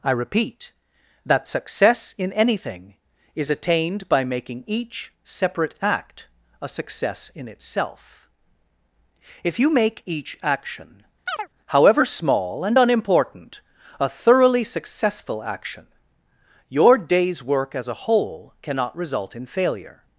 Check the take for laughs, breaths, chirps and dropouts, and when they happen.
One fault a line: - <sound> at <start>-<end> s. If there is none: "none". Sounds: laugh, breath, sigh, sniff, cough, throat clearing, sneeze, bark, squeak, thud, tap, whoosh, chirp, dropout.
- chirp at 11.3-11.5 s